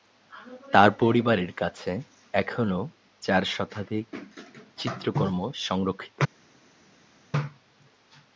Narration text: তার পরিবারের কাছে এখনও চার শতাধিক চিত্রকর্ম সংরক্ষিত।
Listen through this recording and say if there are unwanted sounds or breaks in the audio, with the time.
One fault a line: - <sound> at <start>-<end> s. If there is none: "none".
none